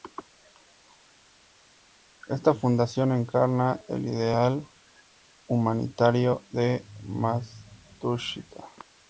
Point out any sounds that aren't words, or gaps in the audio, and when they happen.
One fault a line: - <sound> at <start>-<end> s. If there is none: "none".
none